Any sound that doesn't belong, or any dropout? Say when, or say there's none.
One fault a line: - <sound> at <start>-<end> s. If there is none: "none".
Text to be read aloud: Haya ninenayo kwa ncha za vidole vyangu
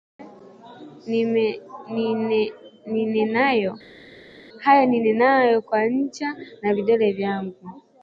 none